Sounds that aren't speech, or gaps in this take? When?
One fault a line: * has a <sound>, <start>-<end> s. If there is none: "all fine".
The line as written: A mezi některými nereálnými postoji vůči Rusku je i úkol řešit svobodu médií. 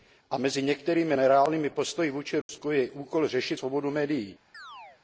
* has a dropout, 2.4-2.5 s
* has a chirp, 4.5-5.0 s